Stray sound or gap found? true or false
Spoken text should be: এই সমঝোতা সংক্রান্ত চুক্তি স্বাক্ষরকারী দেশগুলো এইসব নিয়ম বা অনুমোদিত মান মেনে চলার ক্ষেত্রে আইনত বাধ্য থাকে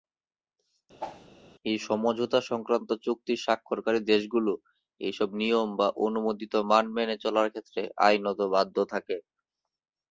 true